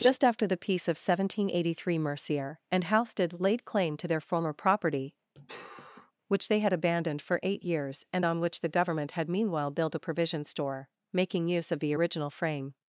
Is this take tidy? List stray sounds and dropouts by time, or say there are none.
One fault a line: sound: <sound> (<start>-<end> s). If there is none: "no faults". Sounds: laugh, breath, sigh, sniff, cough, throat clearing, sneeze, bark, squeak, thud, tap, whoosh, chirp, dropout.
sound: sigh (5.4-6.1 s)